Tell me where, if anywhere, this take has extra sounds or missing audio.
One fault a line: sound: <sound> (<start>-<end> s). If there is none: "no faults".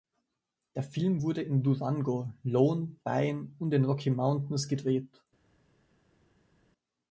no faults